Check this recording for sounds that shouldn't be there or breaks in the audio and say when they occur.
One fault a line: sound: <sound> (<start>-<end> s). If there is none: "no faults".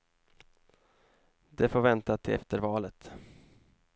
no faults